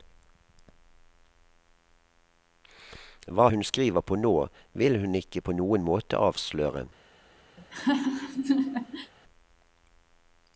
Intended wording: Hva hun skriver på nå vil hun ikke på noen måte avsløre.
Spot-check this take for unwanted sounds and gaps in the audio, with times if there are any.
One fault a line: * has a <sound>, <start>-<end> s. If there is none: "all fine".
* has a laugh, 7.6-9.1 s